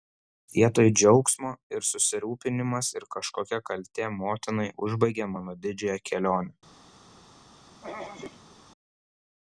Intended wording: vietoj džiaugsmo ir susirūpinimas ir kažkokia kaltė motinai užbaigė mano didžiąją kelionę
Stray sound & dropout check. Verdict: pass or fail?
fail